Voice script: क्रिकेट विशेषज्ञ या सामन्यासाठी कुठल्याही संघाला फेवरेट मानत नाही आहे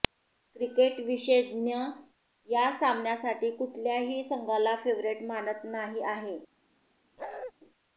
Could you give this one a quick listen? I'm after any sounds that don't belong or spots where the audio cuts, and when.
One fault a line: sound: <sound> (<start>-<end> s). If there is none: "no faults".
sound: bark (7.2-7.5 s)